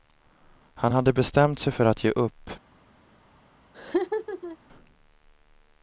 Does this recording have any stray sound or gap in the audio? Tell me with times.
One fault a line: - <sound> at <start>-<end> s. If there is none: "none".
- laugh at 3.7-4.6 s